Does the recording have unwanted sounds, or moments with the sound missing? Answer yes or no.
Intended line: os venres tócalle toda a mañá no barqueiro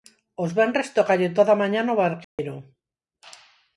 yes